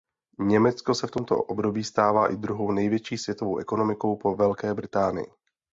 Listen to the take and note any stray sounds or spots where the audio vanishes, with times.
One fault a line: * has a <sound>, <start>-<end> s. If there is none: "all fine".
all fine